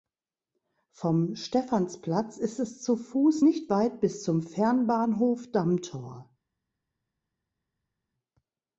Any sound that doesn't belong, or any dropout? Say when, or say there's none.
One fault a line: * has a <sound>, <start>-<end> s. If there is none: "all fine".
all fine